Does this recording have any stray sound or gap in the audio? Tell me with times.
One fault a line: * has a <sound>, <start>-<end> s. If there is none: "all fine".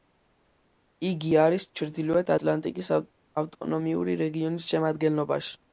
all fine